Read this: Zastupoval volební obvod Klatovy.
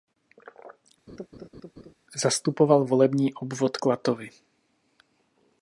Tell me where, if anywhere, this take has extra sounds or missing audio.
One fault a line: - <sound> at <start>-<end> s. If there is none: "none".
- laugh at 1.1-1.9 s